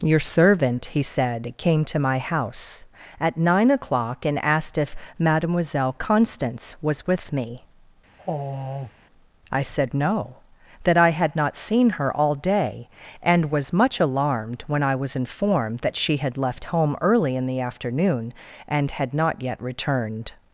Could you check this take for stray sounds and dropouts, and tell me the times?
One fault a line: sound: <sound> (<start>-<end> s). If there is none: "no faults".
sound: sigh (8.2-8.9 s)